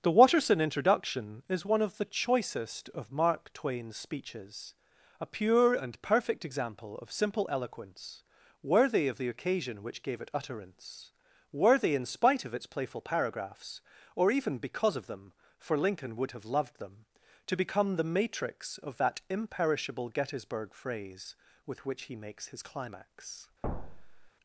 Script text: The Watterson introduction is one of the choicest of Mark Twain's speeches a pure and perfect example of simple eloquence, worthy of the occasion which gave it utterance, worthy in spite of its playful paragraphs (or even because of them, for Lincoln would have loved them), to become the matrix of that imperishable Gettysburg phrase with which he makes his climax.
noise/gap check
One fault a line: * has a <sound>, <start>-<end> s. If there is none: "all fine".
* has a thud, 23.6-24.3 s